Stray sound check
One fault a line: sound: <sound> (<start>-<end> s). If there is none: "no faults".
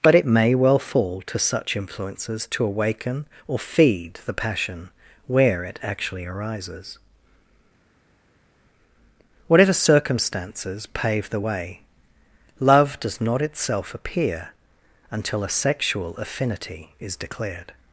no faults